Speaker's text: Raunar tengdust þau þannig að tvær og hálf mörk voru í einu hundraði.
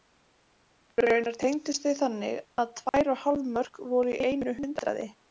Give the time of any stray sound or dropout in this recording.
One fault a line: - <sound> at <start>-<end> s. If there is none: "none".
- dropout at 2.9-2.9 s